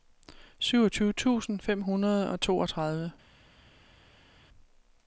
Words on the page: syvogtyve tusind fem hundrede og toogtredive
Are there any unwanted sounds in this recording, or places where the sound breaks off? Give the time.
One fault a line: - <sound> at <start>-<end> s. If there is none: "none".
none